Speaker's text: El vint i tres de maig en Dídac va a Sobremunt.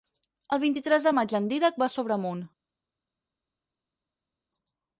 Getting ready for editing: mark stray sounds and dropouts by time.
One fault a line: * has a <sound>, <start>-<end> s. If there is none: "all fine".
all fine